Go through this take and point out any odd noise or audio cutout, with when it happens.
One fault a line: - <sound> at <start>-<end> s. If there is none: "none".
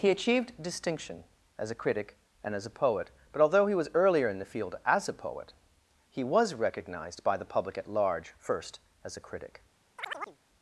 - chirp at 10.0-10.4 s